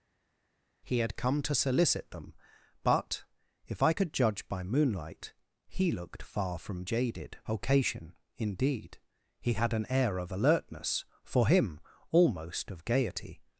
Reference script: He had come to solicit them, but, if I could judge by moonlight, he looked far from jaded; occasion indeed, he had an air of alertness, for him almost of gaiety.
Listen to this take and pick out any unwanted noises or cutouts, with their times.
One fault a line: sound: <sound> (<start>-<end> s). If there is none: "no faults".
no faults